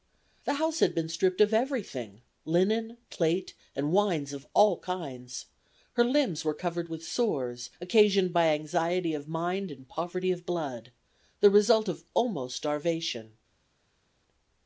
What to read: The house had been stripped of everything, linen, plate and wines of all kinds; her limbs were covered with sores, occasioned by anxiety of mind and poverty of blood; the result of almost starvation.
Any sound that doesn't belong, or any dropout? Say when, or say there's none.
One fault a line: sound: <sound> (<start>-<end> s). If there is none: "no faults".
no faults